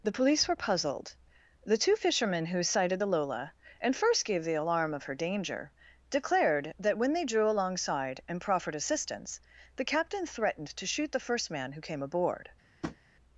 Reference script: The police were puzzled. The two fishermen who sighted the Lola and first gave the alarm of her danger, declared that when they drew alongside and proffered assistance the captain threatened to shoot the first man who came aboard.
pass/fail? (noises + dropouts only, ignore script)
fail